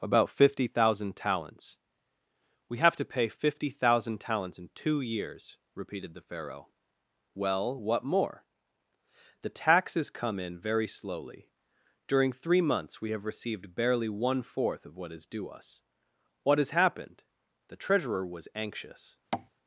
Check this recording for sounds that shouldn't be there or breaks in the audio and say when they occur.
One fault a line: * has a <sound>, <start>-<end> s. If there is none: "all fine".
* has a tap, 19.3-19.5 s